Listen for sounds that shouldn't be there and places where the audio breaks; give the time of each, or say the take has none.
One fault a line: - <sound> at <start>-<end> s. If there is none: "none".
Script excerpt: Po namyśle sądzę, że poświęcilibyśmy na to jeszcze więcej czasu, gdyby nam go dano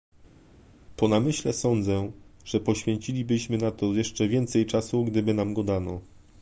none